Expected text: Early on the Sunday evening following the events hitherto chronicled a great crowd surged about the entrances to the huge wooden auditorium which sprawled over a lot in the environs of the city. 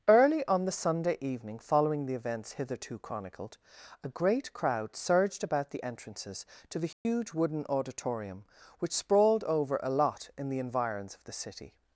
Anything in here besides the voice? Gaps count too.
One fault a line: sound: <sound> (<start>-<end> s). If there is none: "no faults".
sound: dropout (6.9-7.1 s)